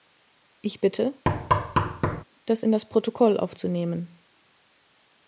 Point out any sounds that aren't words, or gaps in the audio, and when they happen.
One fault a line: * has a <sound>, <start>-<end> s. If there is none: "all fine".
* has a thud, 1.3-2.2 s